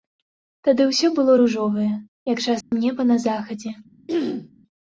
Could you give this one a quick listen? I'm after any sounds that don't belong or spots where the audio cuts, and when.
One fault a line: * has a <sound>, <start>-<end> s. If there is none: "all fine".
* has a dropout, 2.6-2.7 s
* has a throat clearing, 4.1-4.5 s